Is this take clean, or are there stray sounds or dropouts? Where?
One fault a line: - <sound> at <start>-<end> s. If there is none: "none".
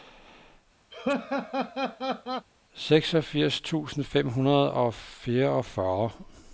- laugh at 0.9-2.5 s